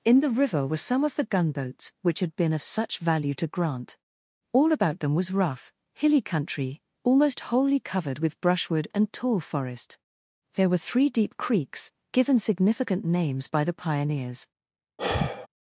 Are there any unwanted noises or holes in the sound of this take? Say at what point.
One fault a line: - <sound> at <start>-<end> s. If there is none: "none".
- sigh at 15.0-15.5 s